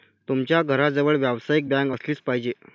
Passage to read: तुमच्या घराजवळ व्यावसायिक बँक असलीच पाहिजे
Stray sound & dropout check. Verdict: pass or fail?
pass